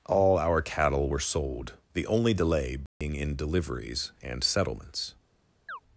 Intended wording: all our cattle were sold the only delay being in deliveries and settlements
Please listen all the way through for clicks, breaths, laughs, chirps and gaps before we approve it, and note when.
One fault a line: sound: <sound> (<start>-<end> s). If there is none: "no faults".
sound: dropout (2.9-3.0 s)
sound: chirp (5.7-5.8 s)